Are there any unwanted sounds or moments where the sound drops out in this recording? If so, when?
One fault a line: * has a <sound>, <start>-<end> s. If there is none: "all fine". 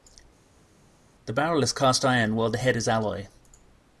all fine